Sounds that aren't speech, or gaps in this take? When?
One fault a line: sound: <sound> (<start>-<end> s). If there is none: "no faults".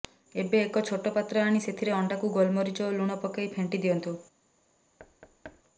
sound: thud (5.0-5.6 s)